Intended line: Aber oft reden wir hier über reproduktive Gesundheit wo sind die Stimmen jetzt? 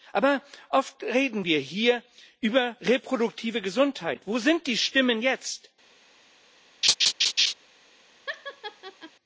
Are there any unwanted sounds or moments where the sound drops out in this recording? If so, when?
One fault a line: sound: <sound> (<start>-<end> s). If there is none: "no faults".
sound: laugh (6.8-7.5 s)
sound: laugh (8.3-9.1 s)